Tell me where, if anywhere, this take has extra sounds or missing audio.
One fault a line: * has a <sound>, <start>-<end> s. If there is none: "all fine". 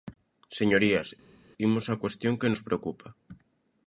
all fine